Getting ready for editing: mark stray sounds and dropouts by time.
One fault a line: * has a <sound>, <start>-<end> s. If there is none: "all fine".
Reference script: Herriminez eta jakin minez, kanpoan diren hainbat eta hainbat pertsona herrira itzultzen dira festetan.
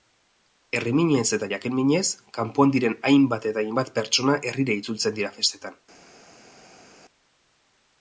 all fine